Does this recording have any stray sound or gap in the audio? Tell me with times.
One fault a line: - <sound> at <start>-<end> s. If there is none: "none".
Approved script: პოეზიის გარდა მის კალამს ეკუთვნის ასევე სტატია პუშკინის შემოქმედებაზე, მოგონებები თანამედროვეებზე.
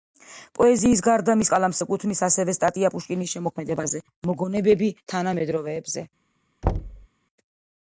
- thud at 6.6-7.1 s